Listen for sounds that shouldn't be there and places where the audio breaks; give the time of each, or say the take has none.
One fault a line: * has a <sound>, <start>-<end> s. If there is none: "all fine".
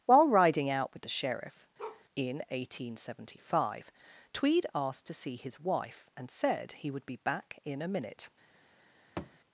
* has a bark, 1.8-2.0 s
* has a thud, 9.2-9.4 s